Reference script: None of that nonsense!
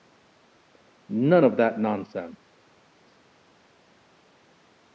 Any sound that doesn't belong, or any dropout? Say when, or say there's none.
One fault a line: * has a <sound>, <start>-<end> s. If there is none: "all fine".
all fine